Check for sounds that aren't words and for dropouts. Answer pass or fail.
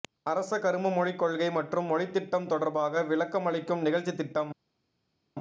pass